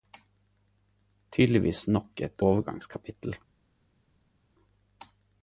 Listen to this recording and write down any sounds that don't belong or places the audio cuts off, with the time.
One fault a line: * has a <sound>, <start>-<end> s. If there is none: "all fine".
all fine